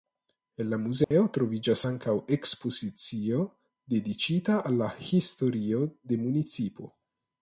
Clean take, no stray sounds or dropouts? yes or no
no